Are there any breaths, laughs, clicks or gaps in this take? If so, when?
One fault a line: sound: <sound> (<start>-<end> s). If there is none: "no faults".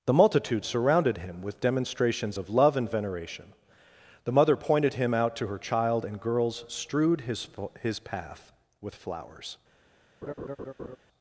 sound: laugh (10.2-11.0 s)